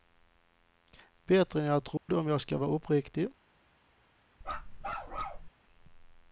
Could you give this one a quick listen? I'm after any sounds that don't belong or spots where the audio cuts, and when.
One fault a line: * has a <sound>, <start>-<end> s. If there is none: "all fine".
* has a dropout, 2.0-2.1 s
* has a bark, 4.4-5.5 s